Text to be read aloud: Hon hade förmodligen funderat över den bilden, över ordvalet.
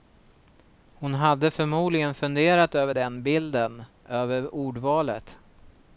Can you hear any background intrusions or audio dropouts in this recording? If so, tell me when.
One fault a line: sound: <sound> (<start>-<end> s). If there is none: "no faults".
no faults